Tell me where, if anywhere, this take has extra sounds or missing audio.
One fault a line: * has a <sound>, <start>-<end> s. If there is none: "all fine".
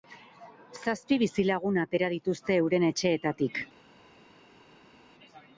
all fine